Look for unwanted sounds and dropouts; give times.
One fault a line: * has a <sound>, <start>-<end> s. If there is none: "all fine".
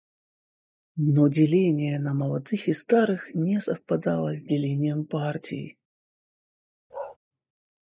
* has a bark, 6.9-7.2 s